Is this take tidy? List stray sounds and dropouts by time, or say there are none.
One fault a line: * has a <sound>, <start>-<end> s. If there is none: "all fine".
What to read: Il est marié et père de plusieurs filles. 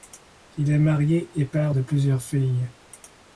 all fine